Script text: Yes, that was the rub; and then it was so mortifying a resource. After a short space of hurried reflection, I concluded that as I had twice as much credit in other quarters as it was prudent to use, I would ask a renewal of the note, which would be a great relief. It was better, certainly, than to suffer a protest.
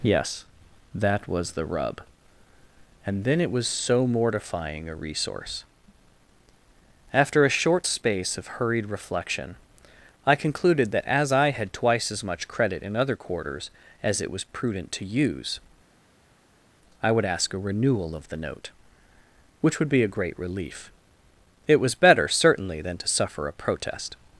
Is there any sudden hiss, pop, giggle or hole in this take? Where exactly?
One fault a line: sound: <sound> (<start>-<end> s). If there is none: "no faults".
no faults